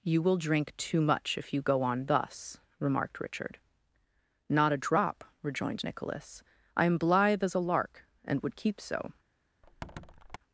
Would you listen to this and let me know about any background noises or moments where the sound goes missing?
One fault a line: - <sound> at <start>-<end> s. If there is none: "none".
- squeak at 9.6-10.4 s